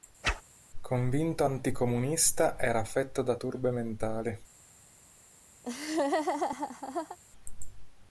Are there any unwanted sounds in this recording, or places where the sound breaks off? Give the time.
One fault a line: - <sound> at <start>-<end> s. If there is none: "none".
- whoosh at 0.2-0.4 s
- laugh at 5.6-7.2 s